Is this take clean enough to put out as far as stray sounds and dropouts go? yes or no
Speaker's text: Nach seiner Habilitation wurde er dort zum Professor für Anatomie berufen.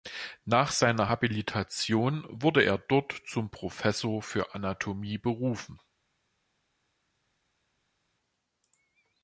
yes